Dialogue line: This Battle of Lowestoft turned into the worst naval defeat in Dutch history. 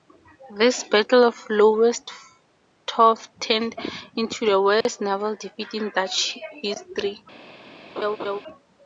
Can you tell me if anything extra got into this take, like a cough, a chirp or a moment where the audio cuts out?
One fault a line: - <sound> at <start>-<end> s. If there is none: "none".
- dropout at 4.8-4.9 s
- laugh at 8.0-8.4 s